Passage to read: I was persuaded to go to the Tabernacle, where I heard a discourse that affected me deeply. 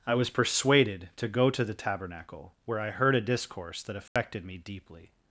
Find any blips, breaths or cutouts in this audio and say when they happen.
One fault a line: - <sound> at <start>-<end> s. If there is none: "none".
- dropout at 4.1-4.2 s